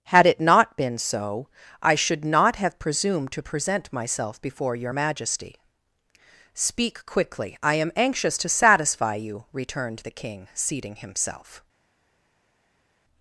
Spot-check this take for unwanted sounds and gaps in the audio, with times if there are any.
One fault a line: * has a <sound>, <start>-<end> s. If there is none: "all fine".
all fine